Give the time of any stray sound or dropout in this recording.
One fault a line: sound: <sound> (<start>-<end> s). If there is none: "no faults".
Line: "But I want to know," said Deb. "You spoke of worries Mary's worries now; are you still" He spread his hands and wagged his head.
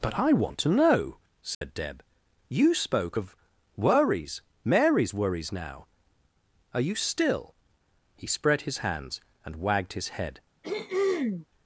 sound: dropout (1.5-1.6 s)
sound: throat clearing (10.6-11.5 s)